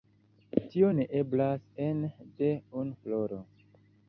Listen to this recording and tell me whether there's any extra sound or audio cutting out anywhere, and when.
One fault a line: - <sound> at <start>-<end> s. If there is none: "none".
none